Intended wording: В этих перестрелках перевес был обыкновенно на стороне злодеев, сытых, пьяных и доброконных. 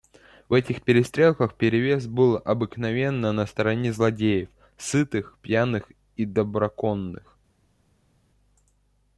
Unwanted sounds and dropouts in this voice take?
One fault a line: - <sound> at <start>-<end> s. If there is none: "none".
none